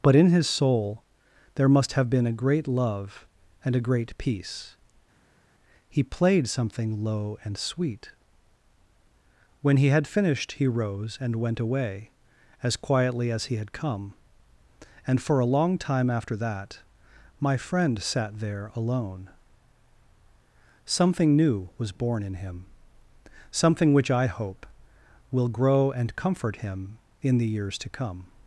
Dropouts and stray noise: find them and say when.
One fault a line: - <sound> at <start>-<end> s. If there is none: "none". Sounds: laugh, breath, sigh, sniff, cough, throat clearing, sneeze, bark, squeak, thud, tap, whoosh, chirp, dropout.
none